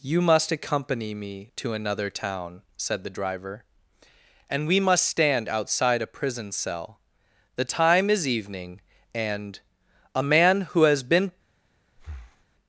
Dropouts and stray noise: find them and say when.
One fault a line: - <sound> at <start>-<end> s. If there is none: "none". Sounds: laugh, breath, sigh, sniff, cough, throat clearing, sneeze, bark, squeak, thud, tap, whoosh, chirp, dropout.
- breath at 12.0-12.5 s